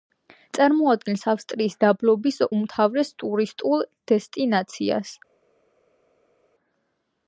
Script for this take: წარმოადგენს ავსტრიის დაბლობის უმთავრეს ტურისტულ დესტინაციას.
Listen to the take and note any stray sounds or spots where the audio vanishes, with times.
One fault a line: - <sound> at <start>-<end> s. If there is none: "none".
none